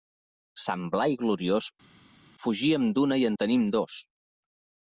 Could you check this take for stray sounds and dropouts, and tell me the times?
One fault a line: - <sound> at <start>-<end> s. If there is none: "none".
none